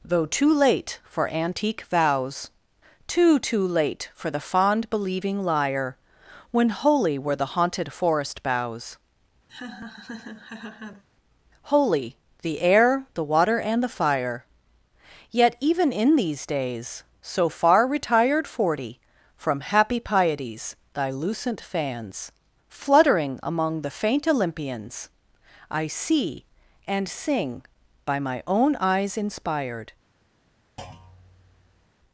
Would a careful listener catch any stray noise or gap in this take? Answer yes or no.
yes